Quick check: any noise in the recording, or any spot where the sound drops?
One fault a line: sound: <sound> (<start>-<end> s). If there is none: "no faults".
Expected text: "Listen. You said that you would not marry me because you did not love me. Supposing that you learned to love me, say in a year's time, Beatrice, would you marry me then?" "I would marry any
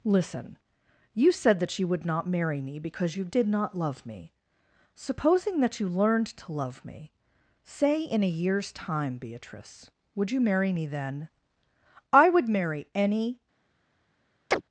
sound: chirp (14.5-14.6 s)